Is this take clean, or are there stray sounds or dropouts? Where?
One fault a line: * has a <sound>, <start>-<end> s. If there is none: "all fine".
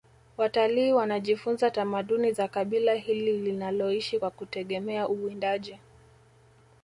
all fine